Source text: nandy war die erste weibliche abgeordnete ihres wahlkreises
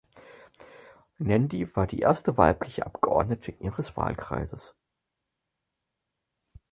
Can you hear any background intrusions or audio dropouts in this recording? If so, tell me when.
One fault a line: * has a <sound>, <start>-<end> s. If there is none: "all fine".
all fine